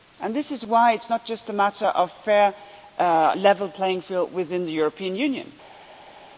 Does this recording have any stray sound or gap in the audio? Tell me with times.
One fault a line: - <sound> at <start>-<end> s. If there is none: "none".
none